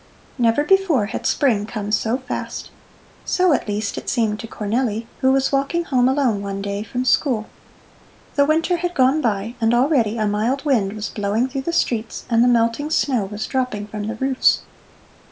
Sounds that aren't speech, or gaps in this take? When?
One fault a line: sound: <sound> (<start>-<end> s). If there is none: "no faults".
no faults